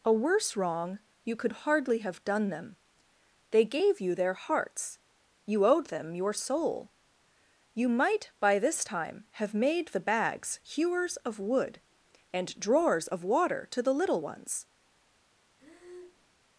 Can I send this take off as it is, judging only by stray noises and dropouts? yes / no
no